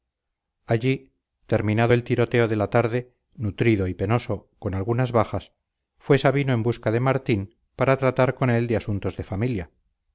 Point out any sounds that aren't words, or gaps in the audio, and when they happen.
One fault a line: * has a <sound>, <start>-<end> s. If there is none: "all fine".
all fine